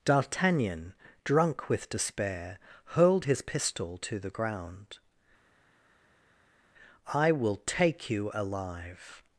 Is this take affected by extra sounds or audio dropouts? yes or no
no